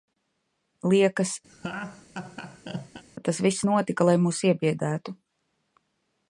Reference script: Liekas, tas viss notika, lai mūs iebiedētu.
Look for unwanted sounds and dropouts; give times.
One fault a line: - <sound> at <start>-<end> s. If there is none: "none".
- laugh at 1.5-3.0 s